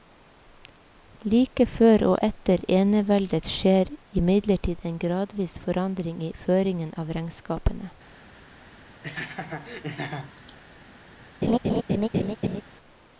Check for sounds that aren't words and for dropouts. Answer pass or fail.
fail